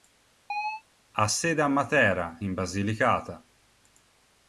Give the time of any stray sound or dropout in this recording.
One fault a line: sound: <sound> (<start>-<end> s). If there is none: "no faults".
sound: chirp (0.5-0.8 s)